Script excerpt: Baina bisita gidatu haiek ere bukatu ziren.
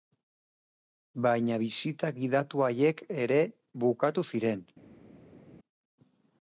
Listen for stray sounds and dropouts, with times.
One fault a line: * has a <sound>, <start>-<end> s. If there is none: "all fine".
all fine